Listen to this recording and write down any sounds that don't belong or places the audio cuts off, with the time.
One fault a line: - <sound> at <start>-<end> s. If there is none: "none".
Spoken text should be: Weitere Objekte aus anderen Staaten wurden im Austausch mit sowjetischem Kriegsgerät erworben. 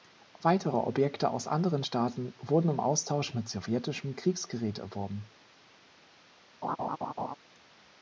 - laugh at 6.6-7.4 s